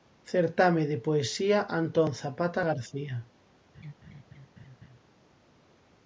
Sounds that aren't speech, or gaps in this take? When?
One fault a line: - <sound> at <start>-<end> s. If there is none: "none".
- laugh at 3.7-5.0 s